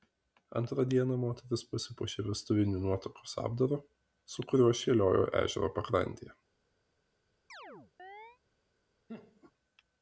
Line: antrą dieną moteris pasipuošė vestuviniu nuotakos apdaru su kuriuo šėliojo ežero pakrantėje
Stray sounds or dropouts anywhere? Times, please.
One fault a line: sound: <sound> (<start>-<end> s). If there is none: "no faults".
sound: chirp (7.5-8.4 s)
sound: laugh (9.1-9.5 s)